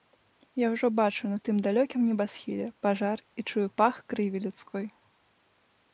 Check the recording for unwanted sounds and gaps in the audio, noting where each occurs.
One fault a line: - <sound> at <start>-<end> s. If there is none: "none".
none